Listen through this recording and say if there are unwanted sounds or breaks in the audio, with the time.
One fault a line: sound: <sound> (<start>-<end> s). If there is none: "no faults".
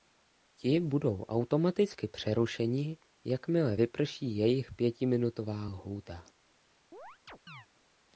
sound: chirp (6.9-7.7 s)